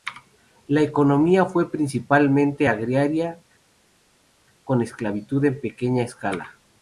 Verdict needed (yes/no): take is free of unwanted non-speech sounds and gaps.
yes